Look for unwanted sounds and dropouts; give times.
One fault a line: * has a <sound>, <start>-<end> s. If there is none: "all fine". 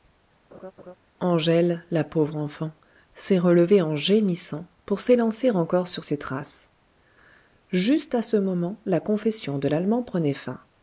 * has a laugh, 0.5-0.9 s